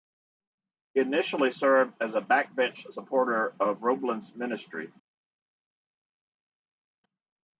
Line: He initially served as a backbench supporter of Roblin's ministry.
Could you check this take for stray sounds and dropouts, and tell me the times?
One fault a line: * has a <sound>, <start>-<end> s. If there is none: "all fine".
all fine